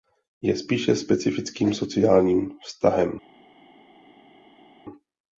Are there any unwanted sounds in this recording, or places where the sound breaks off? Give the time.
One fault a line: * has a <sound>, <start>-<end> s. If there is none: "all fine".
all fine